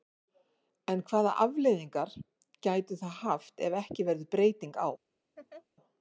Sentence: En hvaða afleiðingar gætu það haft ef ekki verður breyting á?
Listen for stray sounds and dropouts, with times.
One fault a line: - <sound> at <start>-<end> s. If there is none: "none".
- laugh at 5.4-5.7 s